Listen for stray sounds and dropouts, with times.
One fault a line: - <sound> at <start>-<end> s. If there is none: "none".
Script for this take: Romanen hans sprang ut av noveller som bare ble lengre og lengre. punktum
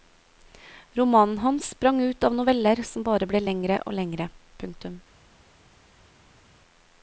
none